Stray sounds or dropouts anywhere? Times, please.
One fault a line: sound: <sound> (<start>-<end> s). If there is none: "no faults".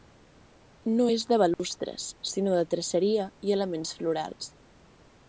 sound: dropout (1.5-1.6 s)